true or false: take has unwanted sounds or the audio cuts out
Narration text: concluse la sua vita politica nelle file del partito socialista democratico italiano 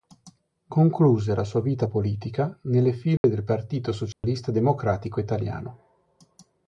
true